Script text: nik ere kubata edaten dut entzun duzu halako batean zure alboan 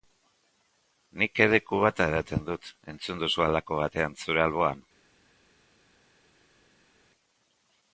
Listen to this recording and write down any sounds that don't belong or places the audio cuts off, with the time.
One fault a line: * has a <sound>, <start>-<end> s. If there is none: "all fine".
all fine